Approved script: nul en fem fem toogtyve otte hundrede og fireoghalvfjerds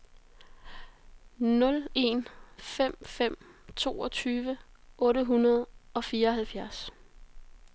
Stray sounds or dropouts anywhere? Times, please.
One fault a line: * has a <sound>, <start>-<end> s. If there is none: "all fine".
all fine